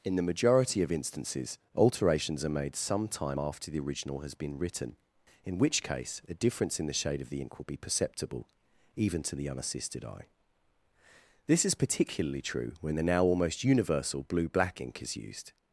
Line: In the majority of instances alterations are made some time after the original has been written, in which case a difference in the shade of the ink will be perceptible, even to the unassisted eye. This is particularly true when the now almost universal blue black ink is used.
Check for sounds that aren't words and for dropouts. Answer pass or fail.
pass